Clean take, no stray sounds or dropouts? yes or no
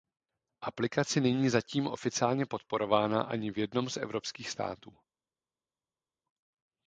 yes